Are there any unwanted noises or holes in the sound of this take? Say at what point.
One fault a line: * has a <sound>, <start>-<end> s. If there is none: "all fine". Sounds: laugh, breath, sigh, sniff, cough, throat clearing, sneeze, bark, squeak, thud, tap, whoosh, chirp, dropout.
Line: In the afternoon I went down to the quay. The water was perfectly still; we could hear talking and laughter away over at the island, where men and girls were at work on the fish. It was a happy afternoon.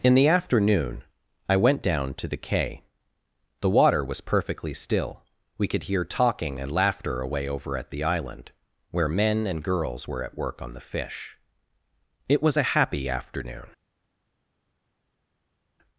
all fine